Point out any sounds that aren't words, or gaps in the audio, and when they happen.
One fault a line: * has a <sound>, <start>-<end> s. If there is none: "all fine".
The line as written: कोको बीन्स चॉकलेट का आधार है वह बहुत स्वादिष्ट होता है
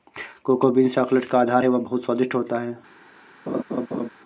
* has a laugh, 3.5-4.1 s